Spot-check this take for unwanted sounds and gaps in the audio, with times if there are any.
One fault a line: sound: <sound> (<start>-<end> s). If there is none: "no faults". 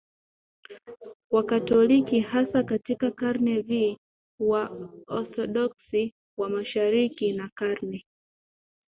no faults